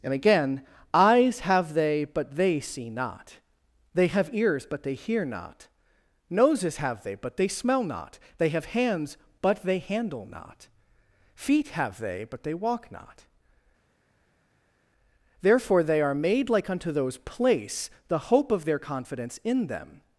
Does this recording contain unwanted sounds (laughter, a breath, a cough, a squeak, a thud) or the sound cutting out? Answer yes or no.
no